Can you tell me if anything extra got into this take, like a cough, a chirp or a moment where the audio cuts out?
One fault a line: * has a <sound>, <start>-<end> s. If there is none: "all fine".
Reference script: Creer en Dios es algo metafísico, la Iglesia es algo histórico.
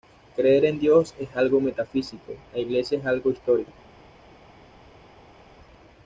all fine